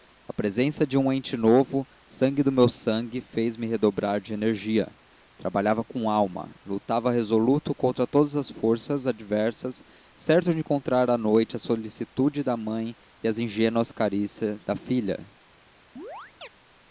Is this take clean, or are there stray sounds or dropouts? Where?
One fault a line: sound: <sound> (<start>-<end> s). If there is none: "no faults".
sound: chirp (16.0-16.5 s)